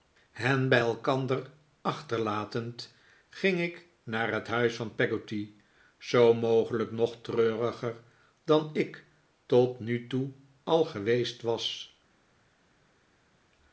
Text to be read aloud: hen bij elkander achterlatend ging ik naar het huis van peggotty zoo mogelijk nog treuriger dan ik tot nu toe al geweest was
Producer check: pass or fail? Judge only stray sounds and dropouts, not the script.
pass